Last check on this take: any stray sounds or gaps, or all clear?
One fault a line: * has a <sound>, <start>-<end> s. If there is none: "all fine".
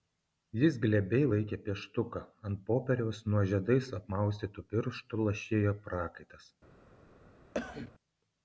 * has a cough, 7.5-7.9 s